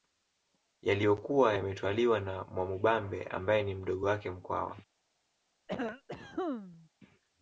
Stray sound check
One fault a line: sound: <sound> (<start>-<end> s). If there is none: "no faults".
sound: cough (5.7-6.9 s)